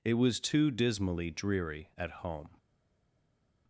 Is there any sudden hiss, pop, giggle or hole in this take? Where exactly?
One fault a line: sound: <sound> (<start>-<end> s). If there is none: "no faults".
no faults